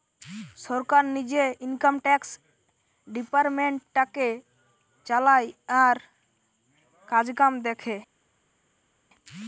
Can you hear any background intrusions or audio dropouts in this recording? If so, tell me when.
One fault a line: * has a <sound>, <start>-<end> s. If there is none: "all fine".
all fine